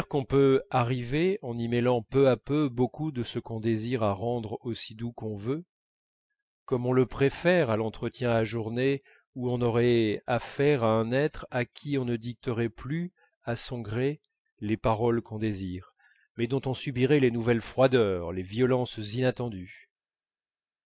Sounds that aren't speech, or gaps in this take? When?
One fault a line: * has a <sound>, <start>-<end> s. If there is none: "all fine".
all fine